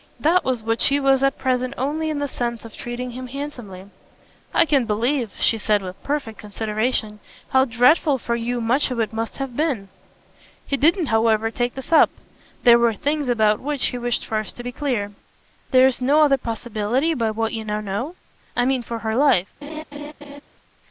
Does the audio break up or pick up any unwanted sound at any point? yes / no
yes